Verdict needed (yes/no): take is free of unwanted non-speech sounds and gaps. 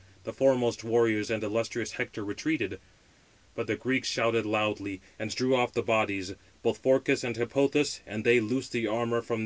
yes